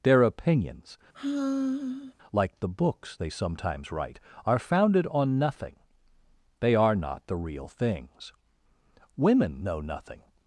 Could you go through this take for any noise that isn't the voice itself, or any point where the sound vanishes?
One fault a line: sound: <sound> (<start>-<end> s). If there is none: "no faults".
sound: sigh (1.1-2.1 s)